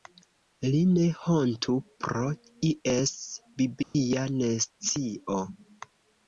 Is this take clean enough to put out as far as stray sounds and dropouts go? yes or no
no